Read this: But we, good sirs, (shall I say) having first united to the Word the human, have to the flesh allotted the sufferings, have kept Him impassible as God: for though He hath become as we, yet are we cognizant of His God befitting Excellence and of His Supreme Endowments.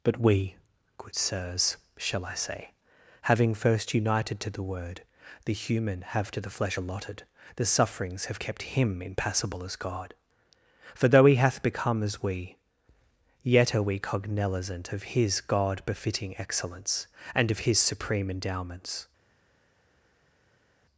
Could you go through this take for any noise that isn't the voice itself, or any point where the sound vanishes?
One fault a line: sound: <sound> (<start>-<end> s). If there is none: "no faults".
no faults